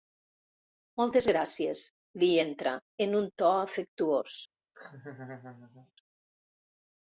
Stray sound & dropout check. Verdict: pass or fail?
fail